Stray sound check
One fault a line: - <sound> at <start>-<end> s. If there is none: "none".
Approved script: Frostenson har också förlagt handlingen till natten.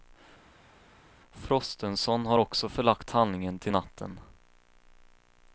none